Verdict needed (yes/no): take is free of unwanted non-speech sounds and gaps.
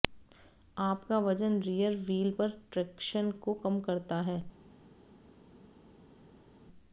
yes